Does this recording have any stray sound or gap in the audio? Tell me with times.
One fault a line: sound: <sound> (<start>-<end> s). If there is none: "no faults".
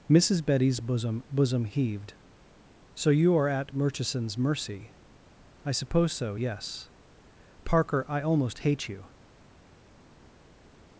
no faults